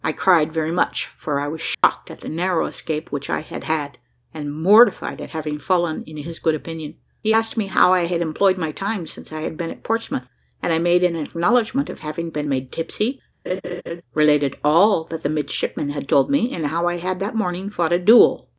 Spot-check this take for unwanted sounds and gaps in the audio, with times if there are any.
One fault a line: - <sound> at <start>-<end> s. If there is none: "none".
- dropout at 1.7-1.8 s
- laugh at 13.5-14.0 s